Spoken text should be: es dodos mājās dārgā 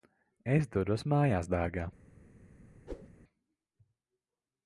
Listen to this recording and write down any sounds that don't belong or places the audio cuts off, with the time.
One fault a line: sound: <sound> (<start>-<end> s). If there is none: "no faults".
sound: whoosh (2.9-3.1 s)